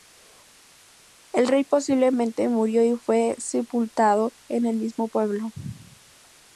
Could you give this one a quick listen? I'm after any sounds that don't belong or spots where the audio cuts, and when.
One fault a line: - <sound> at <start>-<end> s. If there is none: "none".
none